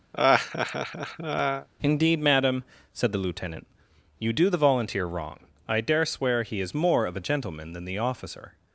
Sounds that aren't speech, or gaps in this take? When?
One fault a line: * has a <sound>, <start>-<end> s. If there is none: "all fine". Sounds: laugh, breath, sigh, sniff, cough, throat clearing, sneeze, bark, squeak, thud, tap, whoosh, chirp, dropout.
* has a laugh, 0.1-1.7 s